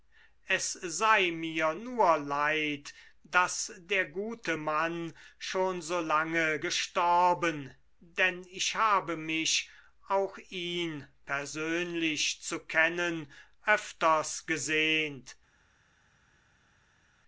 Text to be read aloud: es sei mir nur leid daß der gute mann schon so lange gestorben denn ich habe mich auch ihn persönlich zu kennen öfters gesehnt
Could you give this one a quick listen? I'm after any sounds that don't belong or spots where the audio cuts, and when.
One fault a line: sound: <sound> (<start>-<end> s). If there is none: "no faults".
no faults